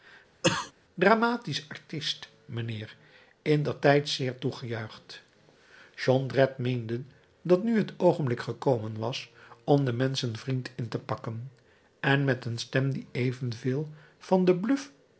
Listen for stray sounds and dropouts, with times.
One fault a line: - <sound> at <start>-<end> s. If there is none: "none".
- cough at 0.4-0.7 s